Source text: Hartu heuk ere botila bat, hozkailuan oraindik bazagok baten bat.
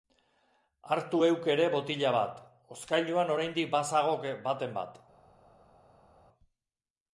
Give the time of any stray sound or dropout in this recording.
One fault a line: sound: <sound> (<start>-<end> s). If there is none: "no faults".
no faults